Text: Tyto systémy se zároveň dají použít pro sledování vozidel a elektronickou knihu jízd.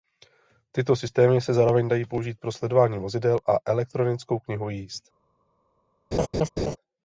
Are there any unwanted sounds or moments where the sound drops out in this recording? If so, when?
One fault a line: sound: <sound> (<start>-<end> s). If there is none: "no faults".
sound: laugh (6.1-6.8 s)